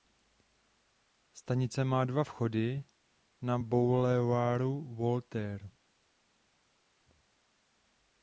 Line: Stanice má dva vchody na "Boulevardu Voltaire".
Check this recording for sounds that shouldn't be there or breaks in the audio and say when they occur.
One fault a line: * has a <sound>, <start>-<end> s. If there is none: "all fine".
all fine